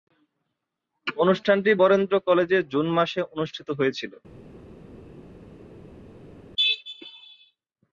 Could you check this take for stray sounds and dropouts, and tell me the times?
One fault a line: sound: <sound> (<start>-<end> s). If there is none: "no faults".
no faults